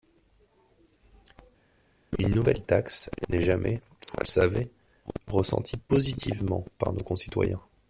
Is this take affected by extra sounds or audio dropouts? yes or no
no